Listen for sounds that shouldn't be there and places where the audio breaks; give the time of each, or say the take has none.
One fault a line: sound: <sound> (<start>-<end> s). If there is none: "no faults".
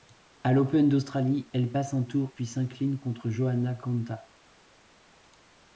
no faults